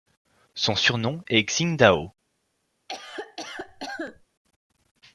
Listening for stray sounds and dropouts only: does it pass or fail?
fail